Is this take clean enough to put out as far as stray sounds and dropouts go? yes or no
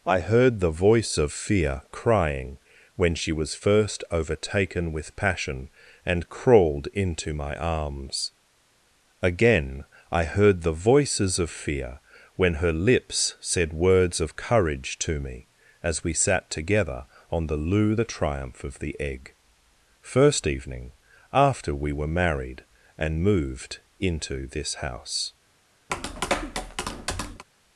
no